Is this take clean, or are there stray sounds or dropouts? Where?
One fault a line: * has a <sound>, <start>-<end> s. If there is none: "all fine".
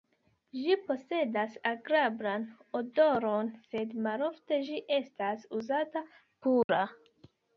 * has a dropout, 6.6-6.7 s